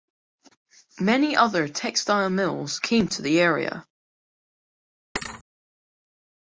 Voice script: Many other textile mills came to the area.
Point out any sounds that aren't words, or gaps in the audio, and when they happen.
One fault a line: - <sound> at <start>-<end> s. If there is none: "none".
- thud at 5.2-5.4 s